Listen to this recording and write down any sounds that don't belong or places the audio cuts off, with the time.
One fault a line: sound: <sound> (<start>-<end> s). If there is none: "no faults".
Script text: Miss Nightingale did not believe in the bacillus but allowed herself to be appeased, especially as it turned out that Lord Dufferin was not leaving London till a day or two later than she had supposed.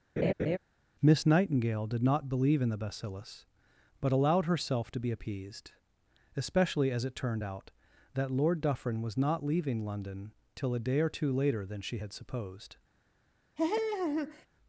sound: laugh (0.2-0.6 s)
sound: laugh (13.6-14.5 s)